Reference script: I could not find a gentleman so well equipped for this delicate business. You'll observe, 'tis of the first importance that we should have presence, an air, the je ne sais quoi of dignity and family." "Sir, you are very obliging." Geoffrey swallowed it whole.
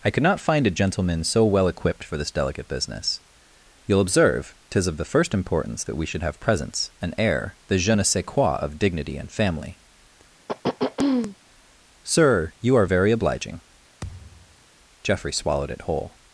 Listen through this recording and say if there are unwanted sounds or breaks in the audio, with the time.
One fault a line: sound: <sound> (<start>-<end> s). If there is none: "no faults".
sound: throat clearing (10.5-11.4 s)
sound: thud (14.0-14.6 s)